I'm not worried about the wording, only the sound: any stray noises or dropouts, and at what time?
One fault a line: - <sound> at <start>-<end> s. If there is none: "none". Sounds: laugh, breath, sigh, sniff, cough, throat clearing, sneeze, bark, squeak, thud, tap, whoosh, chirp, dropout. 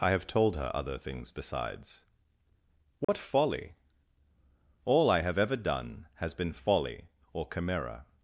- dropout at 3.0-3.1 s